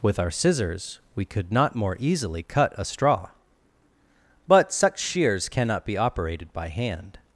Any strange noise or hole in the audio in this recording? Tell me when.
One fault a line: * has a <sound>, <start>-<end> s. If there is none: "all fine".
all fine